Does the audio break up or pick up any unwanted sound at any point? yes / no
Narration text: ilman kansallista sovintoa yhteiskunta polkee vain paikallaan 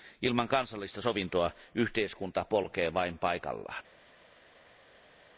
no